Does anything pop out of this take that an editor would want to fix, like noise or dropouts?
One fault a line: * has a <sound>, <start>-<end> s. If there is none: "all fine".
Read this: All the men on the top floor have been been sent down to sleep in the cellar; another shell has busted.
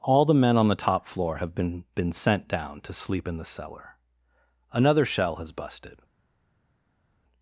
all fine